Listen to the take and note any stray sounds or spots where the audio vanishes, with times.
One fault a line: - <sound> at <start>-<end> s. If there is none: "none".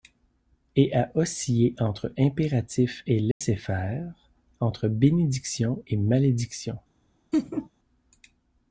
- dropout at 3.3-3.4 s
- laugh at 7.3-7.7 s